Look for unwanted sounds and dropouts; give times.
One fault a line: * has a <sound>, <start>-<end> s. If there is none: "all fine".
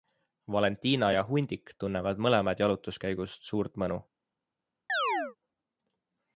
* has a chirp, 4.9-5.4 s